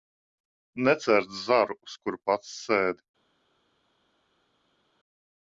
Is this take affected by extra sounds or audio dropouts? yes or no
no